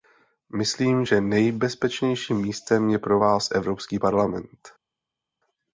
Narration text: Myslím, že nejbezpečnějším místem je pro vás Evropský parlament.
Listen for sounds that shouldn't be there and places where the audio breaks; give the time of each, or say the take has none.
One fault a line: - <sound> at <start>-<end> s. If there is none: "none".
none